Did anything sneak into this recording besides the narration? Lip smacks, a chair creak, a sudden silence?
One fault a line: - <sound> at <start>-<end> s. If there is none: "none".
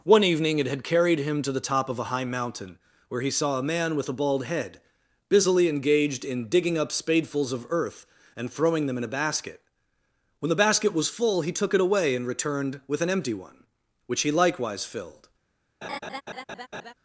- laugh at 15.8-16.9 s